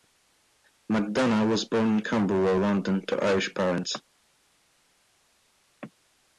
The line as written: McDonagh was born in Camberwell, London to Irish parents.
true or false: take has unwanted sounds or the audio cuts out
false